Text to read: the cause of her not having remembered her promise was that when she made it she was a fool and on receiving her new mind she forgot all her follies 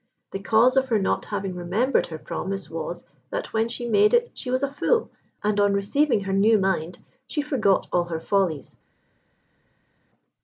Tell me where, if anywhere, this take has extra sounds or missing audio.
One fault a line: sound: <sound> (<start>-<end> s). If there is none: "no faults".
no faults